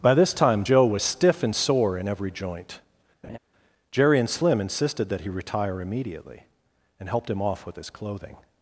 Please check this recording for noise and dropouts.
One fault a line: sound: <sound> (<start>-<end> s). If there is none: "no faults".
sound: laugh (3.2-3.4 s)